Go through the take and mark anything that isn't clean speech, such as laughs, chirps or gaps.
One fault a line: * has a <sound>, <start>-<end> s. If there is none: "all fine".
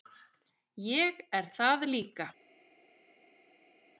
all fine